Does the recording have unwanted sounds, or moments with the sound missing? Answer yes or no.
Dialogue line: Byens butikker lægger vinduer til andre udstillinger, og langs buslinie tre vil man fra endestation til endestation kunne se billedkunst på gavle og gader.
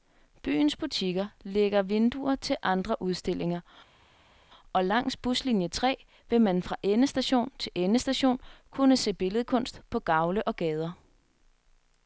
no